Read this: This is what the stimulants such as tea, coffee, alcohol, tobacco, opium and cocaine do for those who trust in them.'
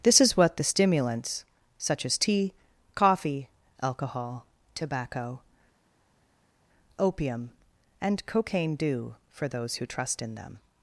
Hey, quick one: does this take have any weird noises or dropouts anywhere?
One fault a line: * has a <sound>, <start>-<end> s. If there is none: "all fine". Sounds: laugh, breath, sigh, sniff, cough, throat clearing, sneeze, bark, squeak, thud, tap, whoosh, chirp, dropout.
all fine